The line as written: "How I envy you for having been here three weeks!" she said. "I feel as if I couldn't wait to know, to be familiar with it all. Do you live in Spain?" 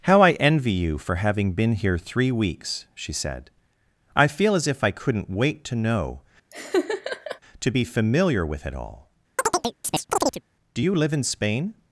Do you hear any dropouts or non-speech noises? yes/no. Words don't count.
yes